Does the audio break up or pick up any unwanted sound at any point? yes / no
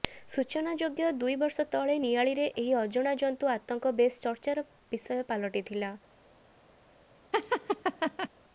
yes